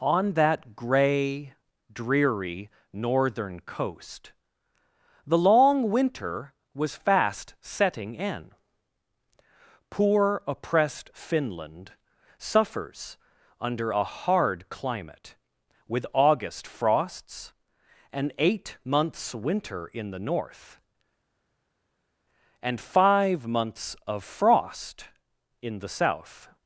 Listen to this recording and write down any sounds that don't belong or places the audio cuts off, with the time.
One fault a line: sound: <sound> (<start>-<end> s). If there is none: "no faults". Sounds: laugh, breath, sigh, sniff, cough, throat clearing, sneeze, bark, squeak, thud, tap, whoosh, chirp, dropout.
no faults